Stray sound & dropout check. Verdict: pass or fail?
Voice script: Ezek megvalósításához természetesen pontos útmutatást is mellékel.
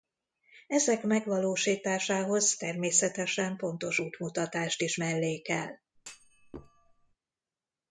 fail